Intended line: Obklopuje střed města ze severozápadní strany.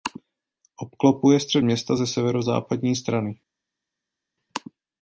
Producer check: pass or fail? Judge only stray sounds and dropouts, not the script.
pass